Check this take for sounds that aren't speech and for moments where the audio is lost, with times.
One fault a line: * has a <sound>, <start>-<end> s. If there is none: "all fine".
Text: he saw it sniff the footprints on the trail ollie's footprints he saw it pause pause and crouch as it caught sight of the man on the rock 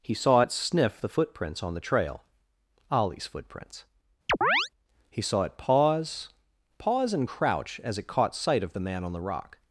* has a chirp, 4.3-4.7 s